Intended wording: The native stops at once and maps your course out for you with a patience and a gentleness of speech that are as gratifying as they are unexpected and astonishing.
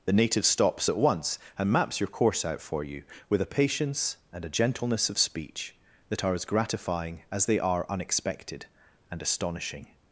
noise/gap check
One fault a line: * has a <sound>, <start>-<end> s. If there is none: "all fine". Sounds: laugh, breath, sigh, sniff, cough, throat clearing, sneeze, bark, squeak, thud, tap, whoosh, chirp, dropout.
all fine